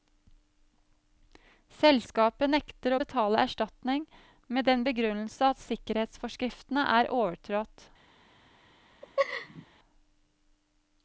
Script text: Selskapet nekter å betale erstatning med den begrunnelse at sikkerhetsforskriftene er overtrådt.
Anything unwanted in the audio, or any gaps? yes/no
yes